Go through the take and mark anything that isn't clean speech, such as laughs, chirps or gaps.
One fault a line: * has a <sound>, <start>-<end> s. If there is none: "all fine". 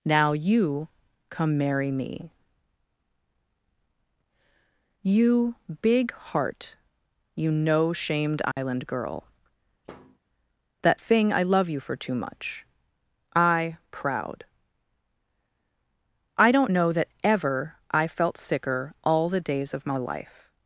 * has a dropout, 8.5-8.6 s
* has a thud, 9.8-10.2 s